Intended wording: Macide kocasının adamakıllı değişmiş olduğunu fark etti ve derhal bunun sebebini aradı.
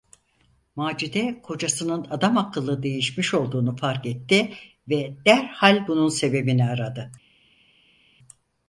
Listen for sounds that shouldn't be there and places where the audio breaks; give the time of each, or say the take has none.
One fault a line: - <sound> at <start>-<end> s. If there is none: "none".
none